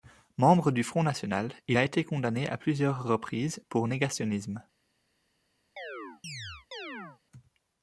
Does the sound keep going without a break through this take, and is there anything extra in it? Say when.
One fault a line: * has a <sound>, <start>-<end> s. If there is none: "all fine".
* has a chirp, 5.8-7.2 s